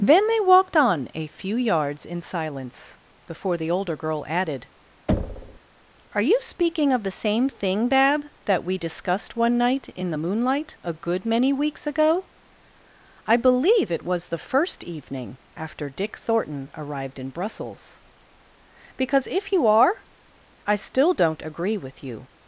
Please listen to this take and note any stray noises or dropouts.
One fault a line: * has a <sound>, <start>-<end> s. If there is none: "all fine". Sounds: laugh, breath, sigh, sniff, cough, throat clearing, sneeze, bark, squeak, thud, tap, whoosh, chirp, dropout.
* has a thud, 5.1-5.6 s